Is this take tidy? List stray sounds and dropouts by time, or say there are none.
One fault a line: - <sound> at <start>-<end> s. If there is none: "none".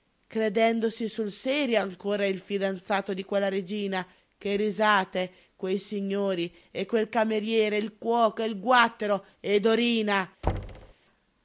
- thud at 10.4-10.9 s